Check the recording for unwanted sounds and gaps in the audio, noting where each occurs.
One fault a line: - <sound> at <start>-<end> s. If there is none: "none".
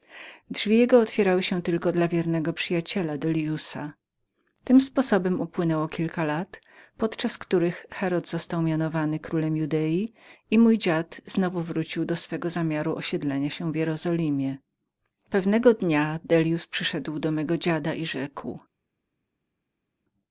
none